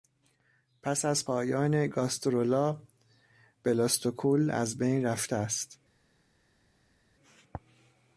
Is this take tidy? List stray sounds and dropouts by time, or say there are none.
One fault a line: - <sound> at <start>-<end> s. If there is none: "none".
none